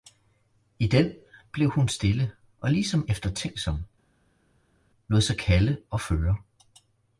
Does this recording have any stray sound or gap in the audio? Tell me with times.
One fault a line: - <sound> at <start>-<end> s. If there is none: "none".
none